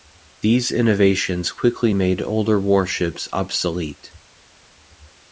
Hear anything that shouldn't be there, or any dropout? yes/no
no